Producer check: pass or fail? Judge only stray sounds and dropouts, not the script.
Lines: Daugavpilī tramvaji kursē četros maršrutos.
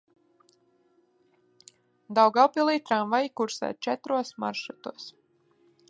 pass